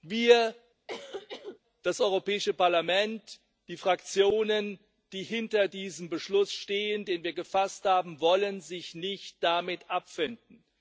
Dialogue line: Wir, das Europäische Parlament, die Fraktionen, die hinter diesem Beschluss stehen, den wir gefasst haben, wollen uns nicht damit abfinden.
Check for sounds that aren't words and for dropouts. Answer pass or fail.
fail